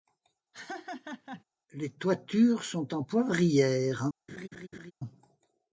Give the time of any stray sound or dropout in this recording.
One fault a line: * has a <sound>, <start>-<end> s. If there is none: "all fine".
* has a laugh, 0.5-1.4 s
* has a laugh, 4.3-4.9 s